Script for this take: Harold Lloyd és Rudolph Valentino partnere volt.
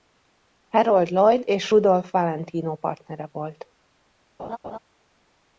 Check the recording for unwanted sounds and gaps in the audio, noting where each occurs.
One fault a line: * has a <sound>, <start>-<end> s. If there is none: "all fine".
* has a laugh, 4.4-4.8 s